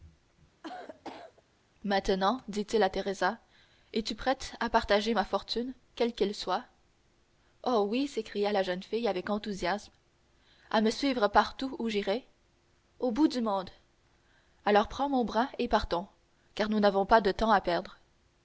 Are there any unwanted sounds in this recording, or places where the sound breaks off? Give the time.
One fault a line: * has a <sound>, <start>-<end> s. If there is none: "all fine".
* has a cough, 0.6-1.4 s